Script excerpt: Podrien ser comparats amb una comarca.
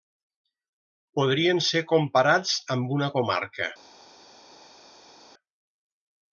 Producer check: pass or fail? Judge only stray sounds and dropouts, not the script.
pass